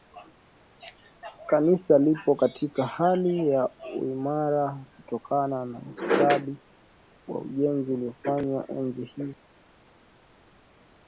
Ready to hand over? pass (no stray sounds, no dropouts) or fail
pass